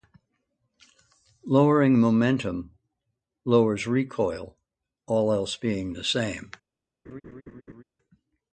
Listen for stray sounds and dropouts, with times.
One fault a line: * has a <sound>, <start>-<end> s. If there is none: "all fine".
* has a laugh, 7.0-7.8 s